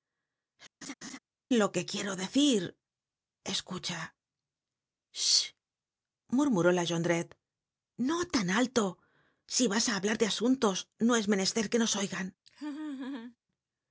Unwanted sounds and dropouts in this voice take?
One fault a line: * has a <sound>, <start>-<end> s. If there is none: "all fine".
* has a laugh, 0.8-1.2 s
* has a laugh, 12.5-13.4 s